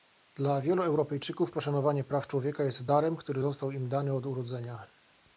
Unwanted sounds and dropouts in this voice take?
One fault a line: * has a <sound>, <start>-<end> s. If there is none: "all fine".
all fine